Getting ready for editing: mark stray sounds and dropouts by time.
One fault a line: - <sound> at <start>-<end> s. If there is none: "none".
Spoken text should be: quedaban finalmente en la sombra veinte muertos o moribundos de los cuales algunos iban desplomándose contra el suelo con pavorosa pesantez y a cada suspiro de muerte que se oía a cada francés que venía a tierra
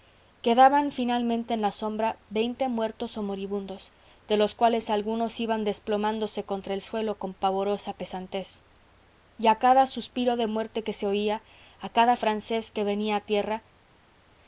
none